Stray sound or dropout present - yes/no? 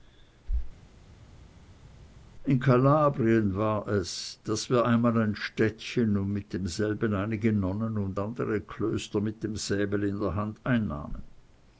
no